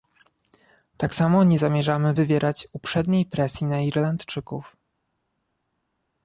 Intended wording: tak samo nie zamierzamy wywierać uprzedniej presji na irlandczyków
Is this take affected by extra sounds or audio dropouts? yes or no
no